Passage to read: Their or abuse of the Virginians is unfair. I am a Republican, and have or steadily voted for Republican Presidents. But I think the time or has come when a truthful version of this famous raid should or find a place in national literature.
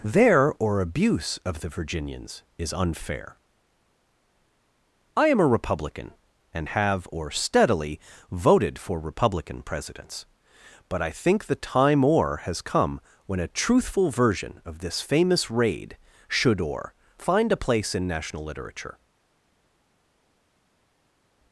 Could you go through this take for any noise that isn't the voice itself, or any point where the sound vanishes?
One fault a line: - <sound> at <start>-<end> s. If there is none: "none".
none